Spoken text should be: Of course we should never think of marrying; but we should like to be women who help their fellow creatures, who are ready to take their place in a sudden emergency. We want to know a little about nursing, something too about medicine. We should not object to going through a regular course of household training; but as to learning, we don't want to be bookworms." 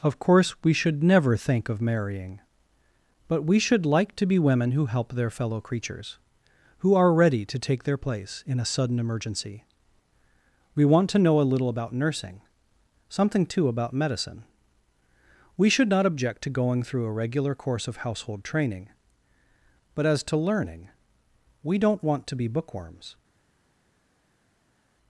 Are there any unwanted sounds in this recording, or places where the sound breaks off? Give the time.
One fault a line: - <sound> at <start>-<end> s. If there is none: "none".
none